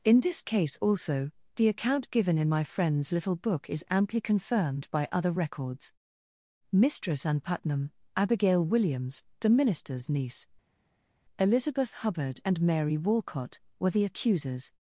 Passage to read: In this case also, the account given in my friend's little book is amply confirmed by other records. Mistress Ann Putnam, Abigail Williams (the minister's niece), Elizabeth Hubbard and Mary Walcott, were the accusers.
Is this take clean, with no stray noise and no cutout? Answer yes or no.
yes